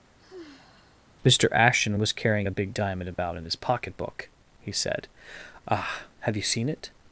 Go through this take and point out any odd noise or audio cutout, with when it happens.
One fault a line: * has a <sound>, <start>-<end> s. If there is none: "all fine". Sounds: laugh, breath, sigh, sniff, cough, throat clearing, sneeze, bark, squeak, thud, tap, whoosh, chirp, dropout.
* has a sigh, 0.2-1.1 s
* has a dropout, 3.1-3.2 s